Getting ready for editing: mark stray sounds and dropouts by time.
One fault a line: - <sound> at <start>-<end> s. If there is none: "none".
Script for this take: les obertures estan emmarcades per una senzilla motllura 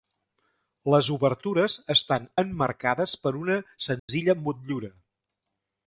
- dropout at 4.0-4.1 s